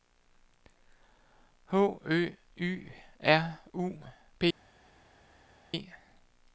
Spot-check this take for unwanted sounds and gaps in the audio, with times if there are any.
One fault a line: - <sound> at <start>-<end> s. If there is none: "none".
none